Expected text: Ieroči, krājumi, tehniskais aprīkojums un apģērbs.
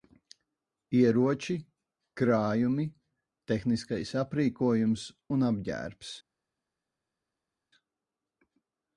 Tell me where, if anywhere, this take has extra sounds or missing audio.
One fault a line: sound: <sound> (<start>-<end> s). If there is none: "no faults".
no faults